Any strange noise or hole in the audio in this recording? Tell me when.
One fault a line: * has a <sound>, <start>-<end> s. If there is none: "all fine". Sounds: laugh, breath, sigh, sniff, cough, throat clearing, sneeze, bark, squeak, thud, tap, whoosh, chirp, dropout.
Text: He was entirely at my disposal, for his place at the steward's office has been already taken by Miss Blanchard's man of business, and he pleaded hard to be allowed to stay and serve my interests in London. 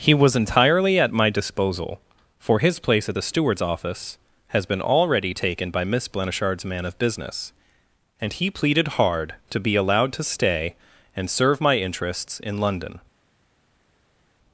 all fine